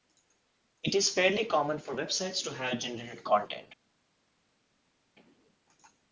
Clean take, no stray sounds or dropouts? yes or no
yes